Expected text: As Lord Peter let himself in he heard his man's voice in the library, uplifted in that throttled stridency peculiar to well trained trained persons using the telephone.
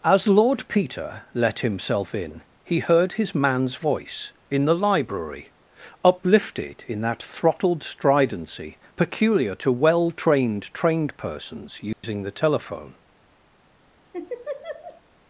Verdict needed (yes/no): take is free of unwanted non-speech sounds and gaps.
no